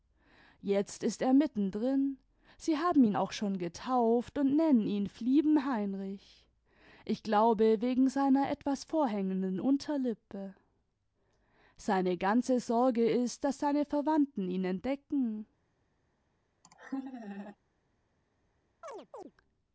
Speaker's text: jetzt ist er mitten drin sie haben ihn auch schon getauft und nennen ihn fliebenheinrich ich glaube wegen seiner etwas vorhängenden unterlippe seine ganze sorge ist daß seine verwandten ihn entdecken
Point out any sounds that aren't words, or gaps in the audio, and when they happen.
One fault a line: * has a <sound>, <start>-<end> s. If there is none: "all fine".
* has a laugh, 16.6-17.6 s
* has a chirp, 18.8-19.3 s